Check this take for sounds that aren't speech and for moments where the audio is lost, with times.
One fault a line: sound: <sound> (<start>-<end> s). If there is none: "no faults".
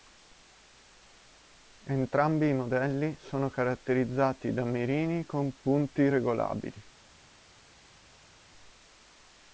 no faults